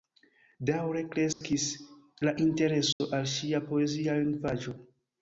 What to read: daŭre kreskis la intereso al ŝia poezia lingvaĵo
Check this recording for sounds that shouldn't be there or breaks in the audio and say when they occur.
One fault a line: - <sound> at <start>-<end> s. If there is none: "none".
- dropout at 1.3-1.4 s
- dropout at 2.9-3.0 s